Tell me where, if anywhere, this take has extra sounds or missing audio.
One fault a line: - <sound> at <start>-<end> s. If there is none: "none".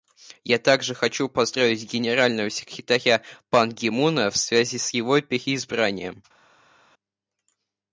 none